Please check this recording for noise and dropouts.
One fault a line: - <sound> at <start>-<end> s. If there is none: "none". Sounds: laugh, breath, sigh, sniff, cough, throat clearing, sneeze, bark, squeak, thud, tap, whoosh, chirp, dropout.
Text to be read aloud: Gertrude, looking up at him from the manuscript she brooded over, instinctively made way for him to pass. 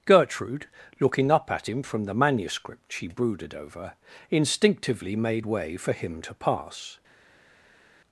none